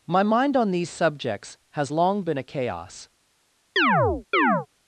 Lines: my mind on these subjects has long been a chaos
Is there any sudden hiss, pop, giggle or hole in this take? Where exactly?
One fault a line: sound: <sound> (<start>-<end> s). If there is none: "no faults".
sound: chirp (3.8-4.7 s)